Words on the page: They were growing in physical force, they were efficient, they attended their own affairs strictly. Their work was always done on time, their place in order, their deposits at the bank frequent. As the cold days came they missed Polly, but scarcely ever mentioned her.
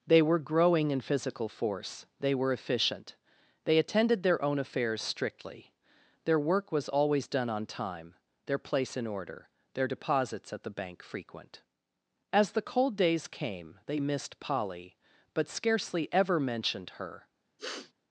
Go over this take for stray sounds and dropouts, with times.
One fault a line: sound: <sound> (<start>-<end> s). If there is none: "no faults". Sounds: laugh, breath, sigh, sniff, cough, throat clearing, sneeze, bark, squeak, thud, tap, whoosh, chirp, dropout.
sound: sniff (17.6-17.9 s)